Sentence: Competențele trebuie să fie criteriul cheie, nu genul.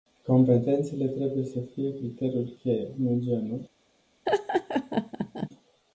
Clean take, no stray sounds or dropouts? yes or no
no